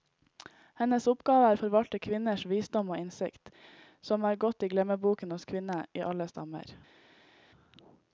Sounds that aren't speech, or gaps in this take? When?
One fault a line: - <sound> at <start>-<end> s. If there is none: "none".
none